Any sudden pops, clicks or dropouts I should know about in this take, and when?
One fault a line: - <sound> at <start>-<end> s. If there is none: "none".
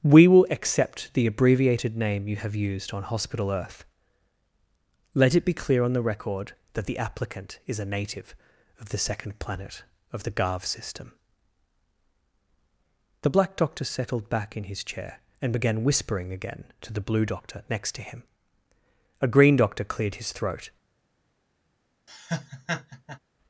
- laugh at 22.1-23.2 s